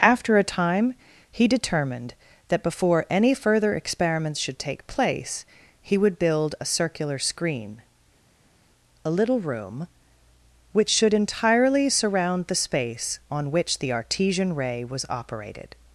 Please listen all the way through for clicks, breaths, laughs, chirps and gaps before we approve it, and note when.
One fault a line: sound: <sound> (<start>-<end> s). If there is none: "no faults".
no faults